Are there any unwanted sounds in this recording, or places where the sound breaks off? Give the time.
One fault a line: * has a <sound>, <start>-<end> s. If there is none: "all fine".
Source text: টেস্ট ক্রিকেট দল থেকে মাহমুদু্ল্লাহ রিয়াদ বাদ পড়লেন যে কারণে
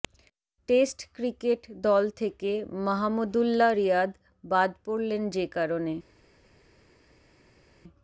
all fine